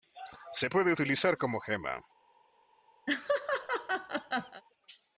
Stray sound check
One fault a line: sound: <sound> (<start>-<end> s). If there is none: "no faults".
sound: laugh (3.1-4.6 s)